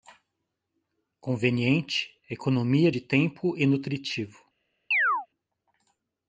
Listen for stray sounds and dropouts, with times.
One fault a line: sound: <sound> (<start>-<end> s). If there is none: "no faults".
sound: chirp (4.9-5.3 s)